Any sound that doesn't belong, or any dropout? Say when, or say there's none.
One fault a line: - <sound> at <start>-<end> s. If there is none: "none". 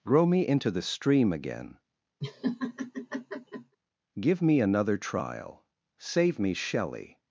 - laugh at 2.2-3.8 s